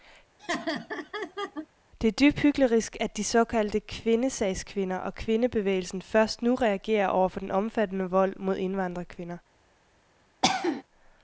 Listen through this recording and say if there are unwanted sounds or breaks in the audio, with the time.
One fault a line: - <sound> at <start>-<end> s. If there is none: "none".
- laugh at 0.4-1.7 s
- cough at 10.4-10.8 s